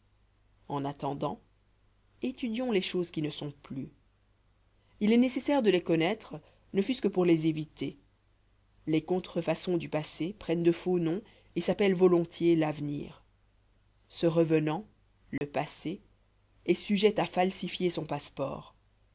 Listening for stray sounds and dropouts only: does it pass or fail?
fail